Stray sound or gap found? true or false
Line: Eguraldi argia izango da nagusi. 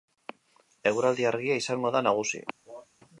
true